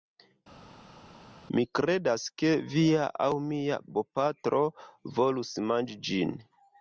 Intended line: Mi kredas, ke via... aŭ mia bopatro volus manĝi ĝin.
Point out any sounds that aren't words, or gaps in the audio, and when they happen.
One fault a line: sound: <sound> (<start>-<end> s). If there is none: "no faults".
no faults